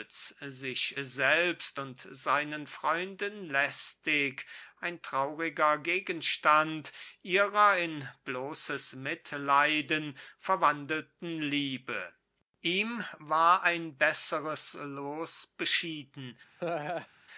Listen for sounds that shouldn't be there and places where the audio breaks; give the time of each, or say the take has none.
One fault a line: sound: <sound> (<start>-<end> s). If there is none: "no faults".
sound: laugh (16.6-17.1 s)